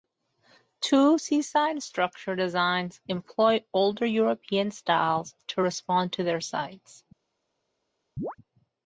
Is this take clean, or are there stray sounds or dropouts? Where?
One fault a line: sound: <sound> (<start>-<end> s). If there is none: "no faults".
sound: chirp (8.2-8.4 s)